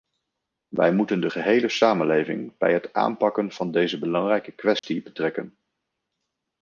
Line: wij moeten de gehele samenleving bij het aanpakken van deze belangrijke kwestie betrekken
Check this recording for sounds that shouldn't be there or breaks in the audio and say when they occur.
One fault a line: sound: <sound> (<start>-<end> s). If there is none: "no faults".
sound: dropout (4.8-4.8 s)